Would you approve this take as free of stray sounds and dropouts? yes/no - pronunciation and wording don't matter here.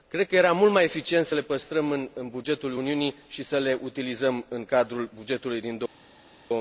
yes